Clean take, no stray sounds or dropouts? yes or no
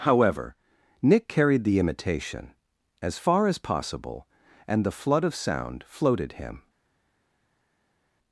yes